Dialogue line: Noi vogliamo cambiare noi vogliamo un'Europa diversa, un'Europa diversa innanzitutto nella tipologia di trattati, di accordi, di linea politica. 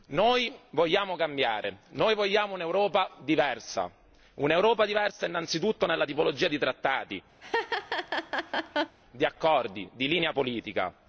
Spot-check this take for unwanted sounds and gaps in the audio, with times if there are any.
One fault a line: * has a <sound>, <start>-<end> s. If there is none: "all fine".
* has a laugh, 7.4-9.0 s